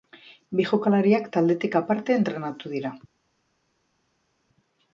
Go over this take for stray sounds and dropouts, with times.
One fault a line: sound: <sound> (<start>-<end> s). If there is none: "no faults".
no faults